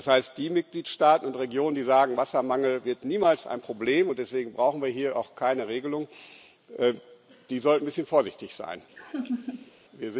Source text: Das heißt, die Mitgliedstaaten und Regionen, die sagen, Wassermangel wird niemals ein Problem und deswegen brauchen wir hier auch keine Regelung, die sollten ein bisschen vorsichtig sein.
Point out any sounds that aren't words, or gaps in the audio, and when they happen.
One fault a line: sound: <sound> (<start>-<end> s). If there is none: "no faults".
sound: laugh (9.0-9.7 s)